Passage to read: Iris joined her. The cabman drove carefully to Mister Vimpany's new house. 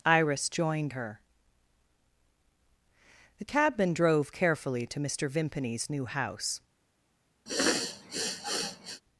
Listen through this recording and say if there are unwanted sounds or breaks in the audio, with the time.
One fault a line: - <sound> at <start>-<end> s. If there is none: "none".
- sniff at 7.5-9.0 s